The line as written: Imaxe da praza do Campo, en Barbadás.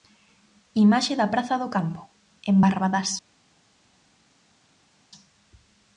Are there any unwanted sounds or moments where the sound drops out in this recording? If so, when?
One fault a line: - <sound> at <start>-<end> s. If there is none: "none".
none